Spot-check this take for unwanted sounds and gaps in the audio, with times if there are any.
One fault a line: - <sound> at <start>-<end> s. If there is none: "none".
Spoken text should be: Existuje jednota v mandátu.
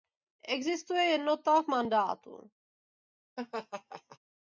- laugh at 3.4-4.2 s